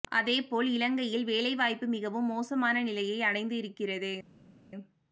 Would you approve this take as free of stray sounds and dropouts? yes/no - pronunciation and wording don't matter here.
yes